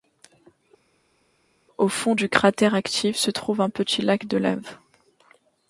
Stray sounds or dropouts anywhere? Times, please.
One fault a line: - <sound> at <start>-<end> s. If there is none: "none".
none